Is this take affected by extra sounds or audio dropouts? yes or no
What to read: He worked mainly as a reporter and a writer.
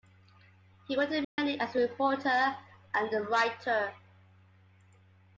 yes